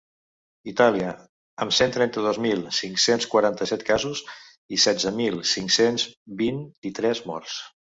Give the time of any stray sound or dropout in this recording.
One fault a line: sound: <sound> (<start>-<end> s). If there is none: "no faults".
no faults